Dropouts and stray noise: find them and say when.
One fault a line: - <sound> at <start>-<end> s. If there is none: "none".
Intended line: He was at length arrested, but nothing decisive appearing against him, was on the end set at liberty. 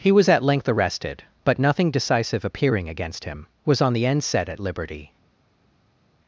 none